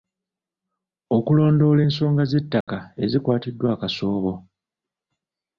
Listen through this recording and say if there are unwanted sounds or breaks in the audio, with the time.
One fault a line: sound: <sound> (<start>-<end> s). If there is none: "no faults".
sound: dropout (2.6-2.7 s)